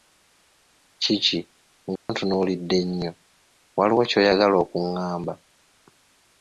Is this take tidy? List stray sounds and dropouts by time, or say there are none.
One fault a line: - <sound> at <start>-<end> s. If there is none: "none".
- dropout at 2.0-2.1 s